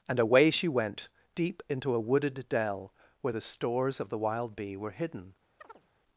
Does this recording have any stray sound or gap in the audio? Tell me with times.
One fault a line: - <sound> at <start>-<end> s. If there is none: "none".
- chirp at 5.6-5.9 s